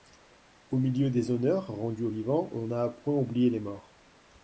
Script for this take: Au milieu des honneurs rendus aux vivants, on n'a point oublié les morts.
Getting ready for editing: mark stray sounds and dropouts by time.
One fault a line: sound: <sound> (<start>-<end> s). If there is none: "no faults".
no faults